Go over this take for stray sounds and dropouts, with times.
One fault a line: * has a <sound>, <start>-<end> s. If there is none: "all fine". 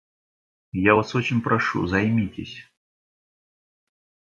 all fine